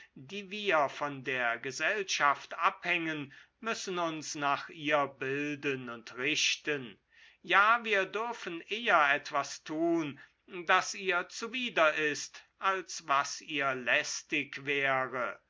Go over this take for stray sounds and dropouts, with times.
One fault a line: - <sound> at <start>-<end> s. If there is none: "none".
none